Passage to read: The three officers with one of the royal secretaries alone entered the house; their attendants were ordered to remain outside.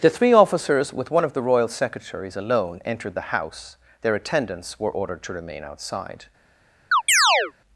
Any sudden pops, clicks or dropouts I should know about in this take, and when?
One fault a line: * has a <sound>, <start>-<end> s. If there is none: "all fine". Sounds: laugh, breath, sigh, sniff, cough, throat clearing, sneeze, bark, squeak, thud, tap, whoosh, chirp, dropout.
* has a chirp, 6.9-7.5 s